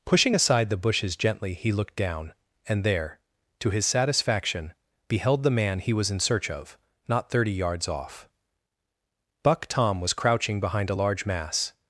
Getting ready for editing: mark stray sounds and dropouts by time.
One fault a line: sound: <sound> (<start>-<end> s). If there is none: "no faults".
no faults